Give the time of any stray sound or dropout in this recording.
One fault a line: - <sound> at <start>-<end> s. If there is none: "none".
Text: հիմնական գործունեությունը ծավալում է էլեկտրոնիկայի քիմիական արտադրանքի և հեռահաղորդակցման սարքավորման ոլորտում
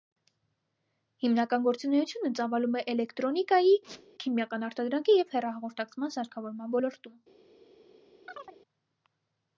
- squeak at 3.8-4.1 s
- chirp at 8.3-8.6 s